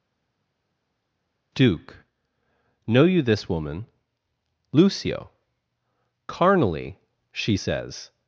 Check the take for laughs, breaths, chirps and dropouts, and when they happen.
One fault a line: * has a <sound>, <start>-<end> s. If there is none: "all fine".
all fine